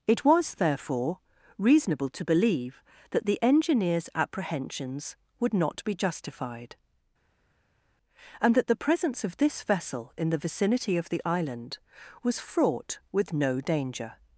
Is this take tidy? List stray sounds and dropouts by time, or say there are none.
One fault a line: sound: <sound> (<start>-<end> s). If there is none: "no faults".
no faults